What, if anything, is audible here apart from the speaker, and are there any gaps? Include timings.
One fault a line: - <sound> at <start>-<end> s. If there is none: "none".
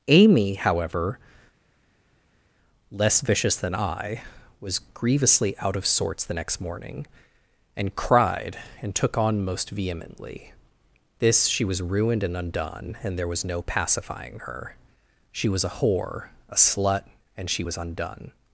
none